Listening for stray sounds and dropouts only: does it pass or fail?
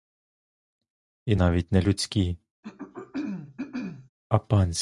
fail